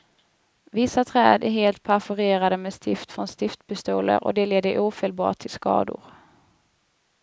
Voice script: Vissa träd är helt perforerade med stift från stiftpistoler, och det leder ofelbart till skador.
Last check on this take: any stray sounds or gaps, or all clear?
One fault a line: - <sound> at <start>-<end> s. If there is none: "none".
none